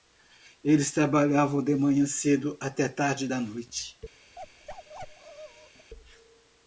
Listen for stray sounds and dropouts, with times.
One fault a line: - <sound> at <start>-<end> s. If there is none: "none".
- bark at 4.4-5.9 s